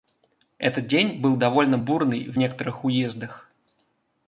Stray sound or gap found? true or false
false